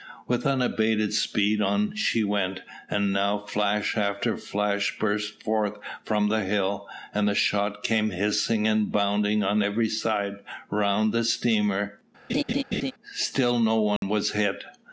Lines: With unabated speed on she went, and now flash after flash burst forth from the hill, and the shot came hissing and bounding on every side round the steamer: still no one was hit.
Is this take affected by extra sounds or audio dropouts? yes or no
yes